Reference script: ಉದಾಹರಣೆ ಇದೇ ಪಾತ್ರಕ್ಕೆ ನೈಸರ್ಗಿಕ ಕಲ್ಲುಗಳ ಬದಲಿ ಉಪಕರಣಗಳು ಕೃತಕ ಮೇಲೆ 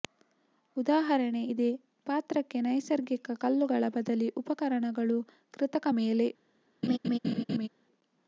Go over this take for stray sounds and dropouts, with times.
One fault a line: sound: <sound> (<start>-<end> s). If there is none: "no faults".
sound: laugh (6.8-7.7 s)